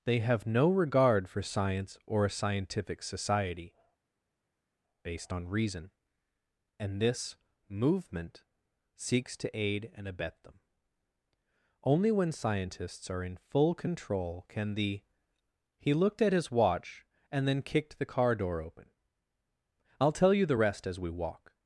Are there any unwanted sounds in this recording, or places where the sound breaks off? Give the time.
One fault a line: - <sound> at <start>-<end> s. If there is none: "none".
none